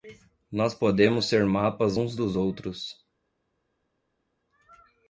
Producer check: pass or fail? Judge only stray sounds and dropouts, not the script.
pass